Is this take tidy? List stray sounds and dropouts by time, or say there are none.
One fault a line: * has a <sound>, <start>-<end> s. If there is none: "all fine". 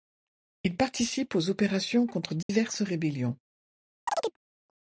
* has a dropout, 2.4-2.5 s
* has a chirp, 4.1-4.4 s